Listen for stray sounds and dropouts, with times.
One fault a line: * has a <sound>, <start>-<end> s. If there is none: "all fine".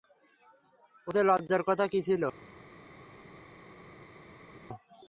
all fine